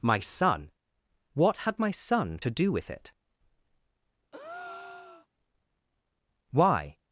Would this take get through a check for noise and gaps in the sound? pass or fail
fail